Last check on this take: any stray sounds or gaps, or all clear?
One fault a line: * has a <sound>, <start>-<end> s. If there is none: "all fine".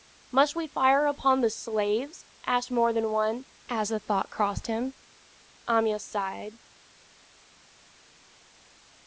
all fine